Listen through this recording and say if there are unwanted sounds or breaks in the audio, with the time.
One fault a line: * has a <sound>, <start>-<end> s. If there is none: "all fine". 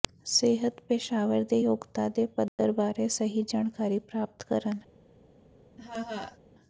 * has a dropout, 2.5-2.6 s
* has a laugh, 5.8-6.4 s